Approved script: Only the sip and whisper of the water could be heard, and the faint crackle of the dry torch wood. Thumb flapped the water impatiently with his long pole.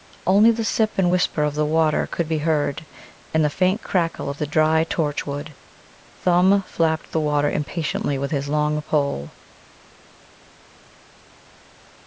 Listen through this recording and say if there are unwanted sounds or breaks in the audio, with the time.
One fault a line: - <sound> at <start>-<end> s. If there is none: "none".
none